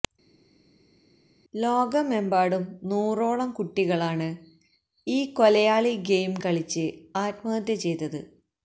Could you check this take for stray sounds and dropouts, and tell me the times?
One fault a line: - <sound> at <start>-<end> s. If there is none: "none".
none